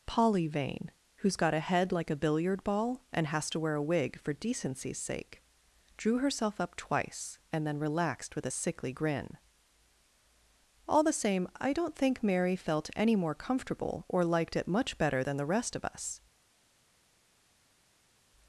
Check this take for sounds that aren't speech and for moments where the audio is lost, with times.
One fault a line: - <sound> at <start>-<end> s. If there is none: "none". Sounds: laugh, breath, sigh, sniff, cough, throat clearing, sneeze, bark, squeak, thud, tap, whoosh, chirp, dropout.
none